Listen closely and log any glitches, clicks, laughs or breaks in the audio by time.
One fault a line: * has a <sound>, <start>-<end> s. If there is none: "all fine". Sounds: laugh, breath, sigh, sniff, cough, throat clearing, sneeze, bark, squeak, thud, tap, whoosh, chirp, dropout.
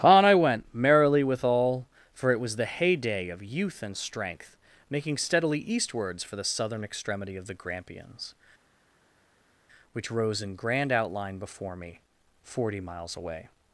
all fine